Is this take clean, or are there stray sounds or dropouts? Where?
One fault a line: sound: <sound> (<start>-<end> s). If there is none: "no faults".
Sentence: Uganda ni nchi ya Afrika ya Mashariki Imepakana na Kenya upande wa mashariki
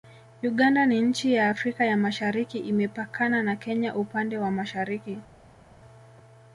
no faults